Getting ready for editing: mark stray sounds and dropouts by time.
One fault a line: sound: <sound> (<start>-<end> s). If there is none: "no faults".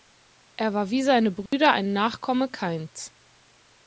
sound: dropout (1.5-1.5 s)